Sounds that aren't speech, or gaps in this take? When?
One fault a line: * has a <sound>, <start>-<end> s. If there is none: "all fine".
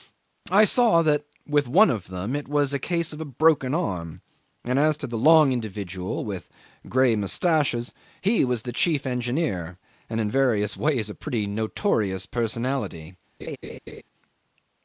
* has a laugh, 13.4-14.0 s